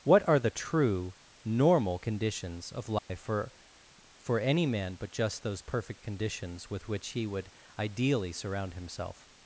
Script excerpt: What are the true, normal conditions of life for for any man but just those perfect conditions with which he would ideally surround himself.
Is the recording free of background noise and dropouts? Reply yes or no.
no